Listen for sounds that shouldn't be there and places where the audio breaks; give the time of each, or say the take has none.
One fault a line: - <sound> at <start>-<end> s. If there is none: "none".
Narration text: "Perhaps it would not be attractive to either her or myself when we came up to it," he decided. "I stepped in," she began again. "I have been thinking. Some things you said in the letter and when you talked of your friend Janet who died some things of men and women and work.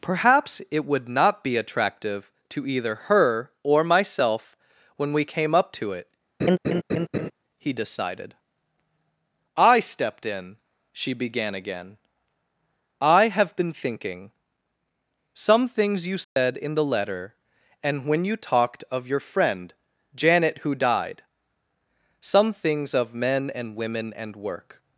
- laugh at 6.4-7.3 s
- dropout at 16.2-16.4 s